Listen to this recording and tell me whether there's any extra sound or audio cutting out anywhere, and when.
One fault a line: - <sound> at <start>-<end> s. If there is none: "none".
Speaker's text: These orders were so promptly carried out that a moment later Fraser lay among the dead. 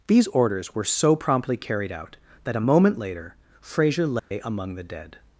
- dropout at 4.2-4.3 s